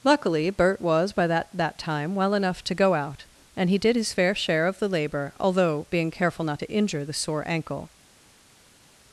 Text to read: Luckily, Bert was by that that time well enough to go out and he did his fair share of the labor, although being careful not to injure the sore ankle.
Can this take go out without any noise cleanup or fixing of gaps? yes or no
yes